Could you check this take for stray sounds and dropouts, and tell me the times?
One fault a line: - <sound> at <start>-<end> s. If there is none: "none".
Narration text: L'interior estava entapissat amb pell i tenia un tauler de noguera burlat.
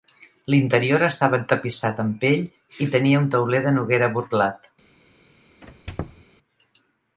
- squeak at 5.6-6.2 s